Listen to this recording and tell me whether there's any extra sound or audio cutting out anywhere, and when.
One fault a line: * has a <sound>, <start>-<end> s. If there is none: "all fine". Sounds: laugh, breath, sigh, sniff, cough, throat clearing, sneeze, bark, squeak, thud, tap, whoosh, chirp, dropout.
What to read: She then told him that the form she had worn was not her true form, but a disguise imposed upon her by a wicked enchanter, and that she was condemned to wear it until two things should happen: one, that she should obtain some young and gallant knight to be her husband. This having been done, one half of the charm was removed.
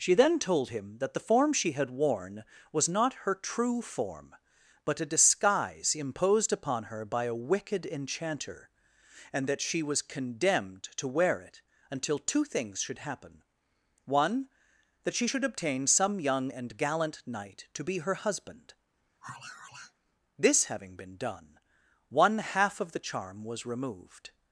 * has a sigh, 19.2-19.9 s